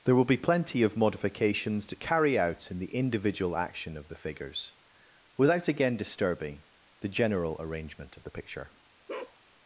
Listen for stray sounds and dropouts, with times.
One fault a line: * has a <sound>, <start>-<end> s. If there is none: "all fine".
* has a bark, 9.1-9.4 s